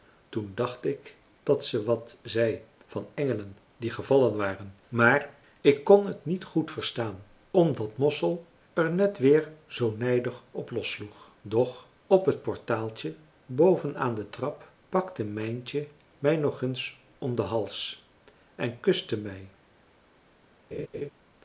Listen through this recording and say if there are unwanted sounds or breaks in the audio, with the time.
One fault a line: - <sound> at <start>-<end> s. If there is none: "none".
- laugh at 20.7-21.1 s